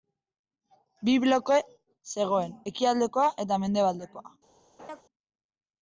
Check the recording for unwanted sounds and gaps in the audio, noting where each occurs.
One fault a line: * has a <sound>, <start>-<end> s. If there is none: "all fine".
* has a laugh, 4.8-5.0 s